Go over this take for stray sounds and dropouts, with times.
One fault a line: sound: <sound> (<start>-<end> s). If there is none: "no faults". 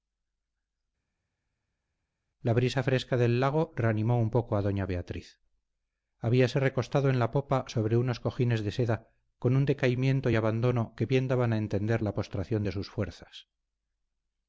no faults